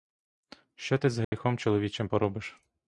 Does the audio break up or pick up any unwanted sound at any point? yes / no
yes